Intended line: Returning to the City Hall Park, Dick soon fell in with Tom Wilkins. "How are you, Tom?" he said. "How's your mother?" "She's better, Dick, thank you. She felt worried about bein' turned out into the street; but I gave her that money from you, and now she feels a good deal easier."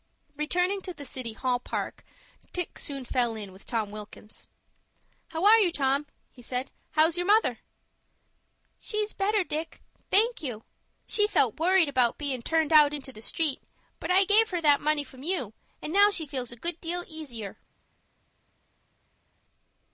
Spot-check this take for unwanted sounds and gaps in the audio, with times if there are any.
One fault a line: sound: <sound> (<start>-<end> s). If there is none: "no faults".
no faults